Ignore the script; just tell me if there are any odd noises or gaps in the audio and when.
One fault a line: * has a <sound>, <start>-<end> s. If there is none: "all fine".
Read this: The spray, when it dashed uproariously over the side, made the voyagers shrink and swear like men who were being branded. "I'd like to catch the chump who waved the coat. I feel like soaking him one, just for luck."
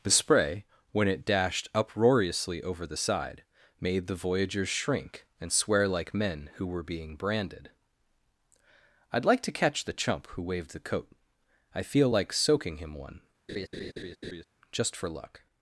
* has a laugh, 13.5-14.4 s